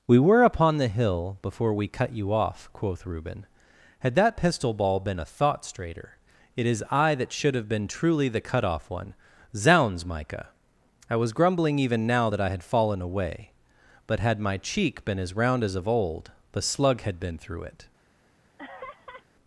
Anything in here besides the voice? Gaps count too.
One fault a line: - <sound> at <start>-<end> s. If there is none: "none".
- laugh at 18.6-19.2 s